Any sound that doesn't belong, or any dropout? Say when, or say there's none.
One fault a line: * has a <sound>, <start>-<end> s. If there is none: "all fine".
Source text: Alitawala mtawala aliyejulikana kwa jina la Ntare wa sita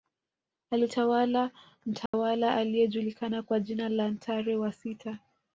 * has a dropout, 2.1-2.1 s